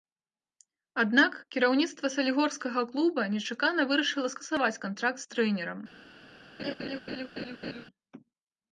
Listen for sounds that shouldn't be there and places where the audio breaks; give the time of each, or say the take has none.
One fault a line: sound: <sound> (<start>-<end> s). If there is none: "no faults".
sound: laugh (6.6-7.9 s)